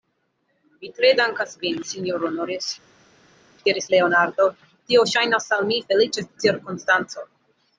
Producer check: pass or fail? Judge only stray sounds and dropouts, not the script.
pass